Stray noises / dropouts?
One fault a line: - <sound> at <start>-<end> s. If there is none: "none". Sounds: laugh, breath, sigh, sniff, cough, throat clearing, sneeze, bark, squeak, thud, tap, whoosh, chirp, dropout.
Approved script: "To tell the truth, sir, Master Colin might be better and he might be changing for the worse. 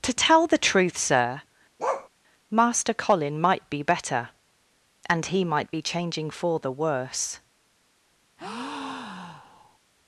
- bark at 1.8-2.1 s
- breath at 8.4-9.8 s